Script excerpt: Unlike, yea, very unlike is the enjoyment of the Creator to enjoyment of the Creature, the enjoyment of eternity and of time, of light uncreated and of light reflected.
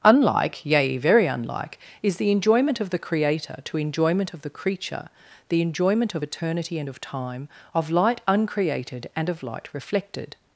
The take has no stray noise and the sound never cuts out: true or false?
true